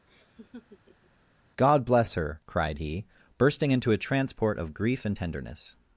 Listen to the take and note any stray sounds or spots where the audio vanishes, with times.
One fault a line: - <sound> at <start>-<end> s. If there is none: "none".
- laugh at 0.1-1.1 s